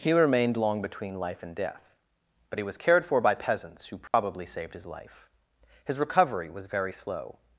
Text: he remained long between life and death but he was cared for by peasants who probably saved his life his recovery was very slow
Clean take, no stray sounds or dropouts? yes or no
no